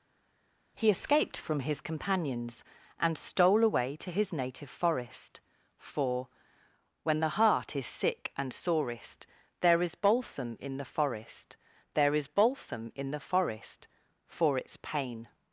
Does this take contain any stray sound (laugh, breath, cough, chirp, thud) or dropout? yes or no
no